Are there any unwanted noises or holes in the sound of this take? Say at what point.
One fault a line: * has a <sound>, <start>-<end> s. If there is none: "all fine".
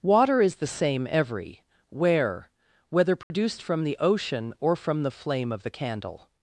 * has a dropout, 3.2-3.3 s